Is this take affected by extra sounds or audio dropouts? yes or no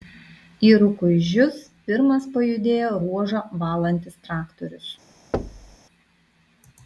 yes